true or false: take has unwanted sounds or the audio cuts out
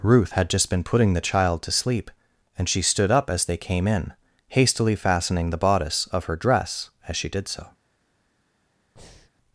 true